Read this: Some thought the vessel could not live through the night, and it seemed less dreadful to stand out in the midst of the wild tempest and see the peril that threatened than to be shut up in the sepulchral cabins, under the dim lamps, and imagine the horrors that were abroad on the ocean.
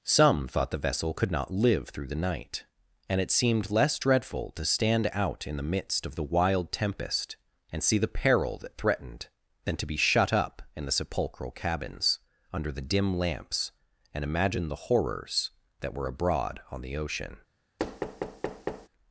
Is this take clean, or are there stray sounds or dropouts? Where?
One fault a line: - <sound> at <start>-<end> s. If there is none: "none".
- thud at 17.8-18.9 s